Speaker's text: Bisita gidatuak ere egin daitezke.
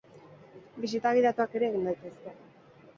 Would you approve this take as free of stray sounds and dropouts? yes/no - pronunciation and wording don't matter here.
yes